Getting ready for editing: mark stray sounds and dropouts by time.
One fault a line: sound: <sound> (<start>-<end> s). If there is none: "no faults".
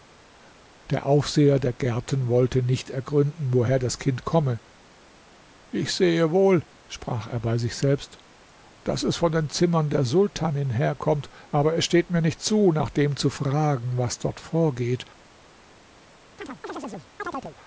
sound: chirp (16.4-17.6 s)